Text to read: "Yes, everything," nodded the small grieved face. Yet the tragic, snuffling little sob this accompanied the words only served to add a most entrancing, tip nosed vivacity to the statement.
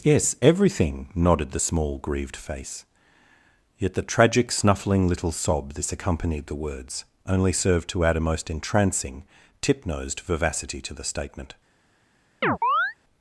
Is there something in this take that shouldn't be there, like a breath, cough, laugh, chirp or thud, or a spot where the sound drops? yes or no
yes